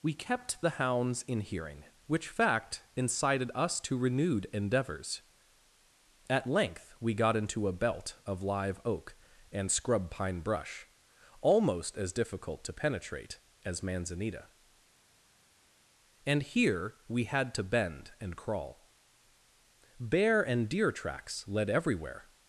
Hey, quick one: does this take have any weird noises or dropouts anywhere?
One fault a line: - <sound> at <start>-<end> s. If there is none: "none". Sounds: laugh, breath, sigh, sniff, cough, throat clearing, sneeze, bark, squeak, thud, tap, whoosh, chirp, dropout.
none